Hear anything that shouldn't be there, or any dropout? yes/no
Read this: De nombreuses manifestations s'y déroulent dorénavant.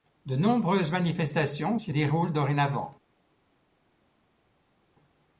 no